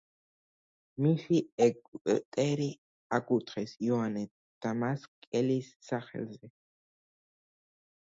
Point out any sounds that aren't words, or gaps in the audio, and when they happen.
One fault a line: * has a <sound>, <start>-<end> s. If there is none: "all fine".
all fine